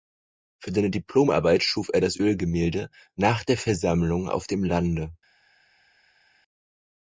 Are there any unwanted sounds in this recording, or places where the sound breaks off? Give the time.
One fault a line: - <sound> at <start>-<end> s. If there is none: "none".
none